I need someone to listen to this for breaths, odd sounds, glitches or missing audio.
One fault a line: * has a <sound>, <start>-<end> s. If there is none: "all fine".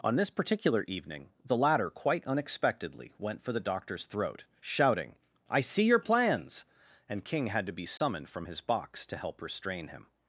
* has a dropout, 8.0-8.0 s